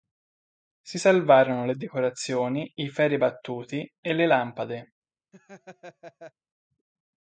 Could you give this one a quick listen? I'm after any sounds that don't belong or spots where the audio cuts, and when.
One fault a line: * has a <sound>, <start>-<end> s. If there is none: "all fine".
* has a laugh, 5.3-6.3 s